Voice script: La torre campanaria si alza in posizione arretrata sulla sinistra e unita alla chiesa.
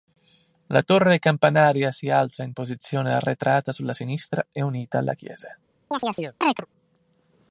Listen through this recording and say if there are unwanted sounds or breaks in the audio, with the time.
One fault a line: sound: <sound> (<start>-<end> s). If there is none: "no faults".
sound: chirp (5.9-6.7 s)